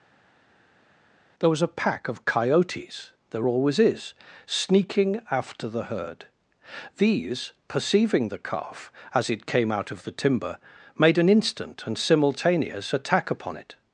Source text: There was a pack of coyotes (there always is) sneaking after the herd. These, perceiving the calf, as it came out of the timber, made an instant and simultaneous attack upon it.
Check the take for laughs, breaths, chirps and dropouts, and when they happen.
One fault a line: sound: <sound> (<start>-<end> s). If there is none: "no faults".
no faults